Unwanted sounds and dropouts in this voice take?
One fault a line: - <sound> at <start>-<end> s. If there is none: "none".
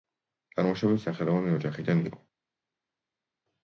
none